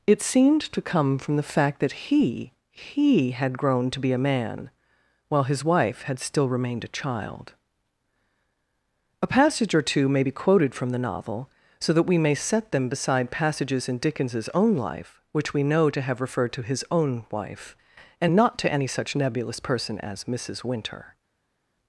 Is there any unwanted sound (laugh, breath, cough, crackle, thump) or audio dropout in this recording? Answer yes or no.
no